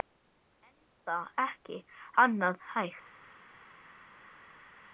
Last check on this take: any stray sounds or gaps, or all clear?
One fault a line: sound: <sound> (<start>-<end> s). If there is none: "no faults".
no faults